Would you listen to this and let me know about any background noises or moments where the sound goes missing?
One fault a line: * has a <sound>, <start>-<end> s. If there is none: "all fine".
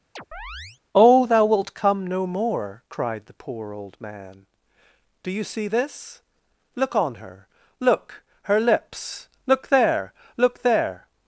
* has a chirp, 0.2-0.8 s